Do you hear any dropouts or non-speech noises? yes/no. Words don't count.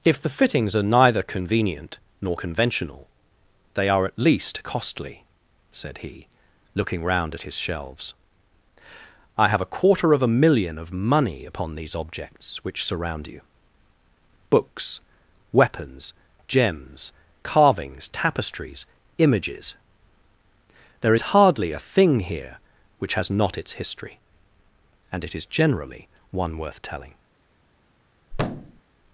yes